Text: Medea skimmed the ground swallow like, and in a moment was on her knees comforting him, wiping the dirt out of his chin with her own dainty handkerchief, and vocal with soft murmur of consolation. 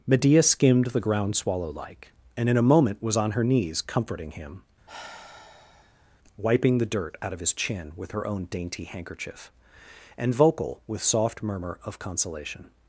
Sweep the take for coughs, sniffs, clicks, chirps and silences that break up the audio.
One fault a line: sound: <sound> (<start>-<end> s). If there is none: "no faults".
sound: sigh (4.9-6.2 s)